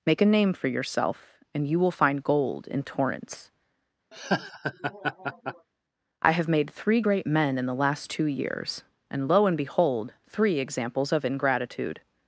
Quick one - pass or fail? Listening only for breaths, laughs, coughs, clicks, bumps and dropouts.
fail